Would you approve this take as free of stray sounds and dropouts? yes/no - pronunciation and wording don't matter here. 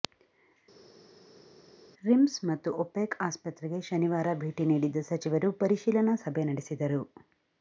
yes